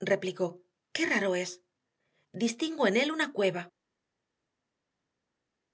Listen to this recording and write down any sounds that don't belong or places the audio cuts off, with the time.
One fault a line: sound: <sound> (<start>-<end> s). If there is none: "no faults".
no faults